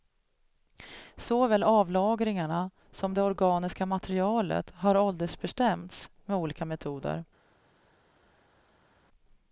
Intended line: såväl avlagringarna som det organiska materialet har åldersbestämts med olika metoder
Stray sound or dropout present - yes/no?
no